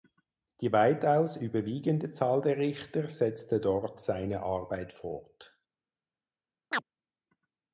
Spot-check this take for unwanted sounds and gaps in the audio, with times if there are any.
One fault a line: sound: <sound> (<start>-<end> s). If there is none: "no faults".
sound: chirp (6.7-6.8 s)